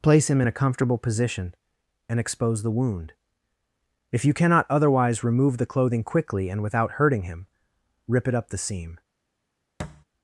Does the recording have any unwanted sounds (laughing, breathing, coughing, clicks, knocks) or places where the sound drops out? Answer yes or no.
yes